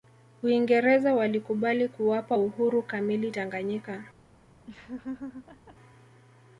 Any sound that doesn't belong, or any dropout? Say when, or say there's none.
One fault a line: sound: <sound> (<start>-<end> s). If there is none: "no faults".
sound: laugh (4.7-5.8 s)